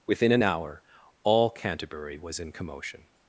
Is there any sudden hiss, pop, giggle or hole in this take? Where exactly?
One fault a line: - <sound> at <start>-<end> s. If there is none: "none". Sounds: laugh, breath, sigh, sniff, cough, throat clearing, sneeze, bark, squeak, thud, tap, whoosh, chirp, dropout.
none